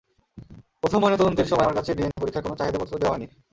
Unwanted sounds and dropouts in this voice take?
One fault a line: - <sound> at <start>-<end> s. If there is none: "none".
- dropout at 2.1-2.2 s